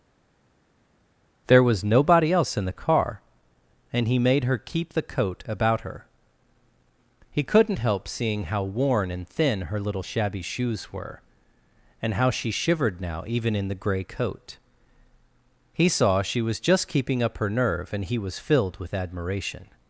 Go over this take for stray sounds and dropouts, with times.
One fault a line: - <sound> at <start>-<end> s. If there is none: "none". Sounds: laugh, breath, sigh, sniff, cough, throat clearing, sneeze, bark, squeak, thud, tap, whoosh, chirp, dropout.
none